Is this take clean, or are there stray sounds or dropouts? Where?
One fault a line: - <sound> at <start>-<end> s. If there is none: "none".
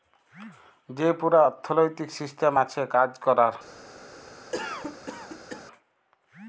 - cough at 4.5-5.7 s